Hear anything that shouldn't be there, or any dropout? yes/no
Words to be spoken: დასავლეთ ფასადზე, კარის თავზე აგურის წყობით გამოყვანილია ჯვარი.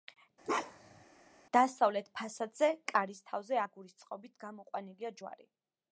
yes